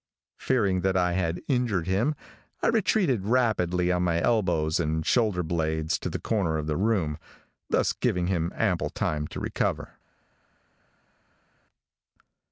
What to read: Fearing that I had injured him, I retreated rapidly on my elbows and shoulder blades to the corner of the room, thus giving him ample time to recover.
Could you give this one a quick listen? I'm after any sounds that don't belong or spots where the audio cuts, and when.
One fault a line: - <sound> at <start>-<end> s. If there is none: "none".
none